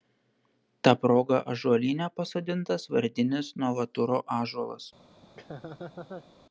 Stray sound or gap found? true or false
true